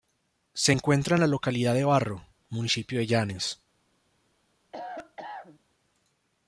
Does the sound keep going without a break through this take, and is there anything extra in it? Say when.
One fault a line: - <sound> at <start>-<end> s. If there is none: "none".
- cough at 4.7-5.6 s